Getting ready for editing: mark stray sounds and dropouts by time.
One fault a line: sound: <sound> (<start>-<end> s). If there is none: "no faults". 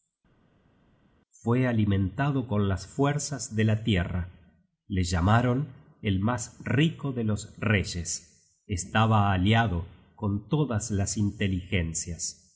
no faults